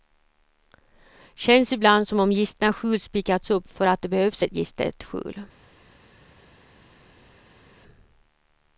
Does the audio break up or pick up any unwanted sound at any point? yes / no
no